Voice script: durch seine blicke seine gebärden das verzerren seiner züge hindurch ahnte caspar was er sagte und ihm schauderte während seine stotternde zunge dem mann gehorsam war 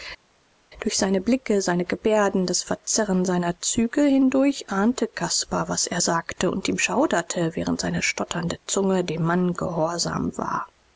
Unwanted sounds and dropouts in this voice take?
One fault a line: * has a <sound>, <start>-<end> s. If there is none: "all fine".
all fine